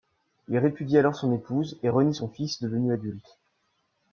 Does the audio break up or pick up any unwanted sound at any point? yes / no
no